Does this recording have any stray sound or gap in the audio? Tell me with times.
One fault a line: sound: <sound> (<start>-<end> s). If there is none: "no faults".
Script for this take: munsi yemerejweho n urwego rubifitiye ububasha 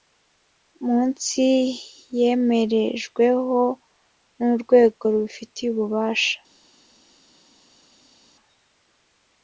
no faults